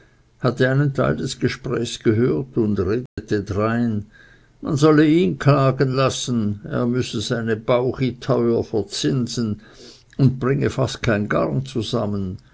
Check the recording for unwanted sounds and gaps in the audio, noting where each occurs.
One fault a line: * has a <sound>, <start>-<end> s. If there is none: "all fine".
* has a dropout, 3.1-3.2 s